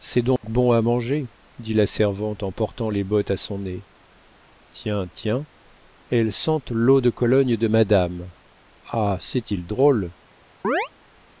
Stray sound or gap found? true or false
true